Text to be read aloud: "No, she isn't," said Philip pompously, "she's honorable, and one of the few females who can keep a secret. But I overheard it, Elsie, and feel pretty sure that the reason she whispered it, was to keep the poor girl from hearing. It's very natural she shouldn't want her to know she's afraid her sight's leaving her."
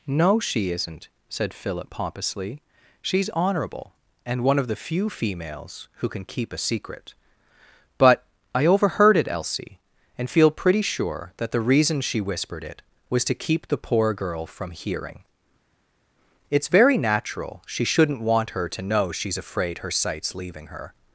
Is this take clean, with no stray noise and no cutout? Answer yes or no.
yes